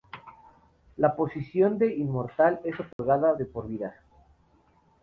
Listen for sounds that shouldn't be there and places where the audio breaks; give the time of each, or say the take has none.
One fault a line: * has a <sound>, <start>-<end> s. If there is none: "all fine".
* has a dropout, 2.9-3.0 s